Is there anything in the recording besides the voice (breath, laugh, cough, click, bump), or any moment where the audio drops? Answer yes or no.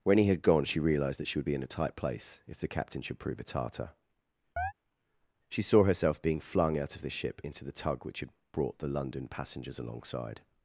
yes